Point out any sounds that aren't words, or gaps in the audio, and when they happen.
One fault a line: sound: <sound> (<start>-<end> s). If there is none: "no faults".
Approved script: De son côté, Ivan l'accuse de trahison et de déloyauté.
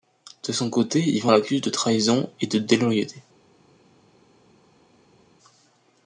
no faults